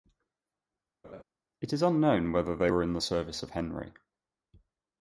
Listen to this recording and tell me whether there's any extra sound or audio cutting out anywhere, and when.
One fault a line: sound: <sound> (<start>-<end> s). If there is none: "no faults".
sound: laugh (1.0-1.2 s)